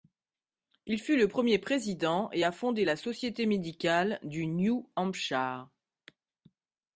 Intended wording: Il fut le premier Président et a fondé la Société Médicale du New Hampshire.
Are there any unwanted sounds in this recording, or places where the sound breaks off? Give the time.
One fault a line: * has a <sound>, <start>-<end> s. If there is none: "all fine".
all fine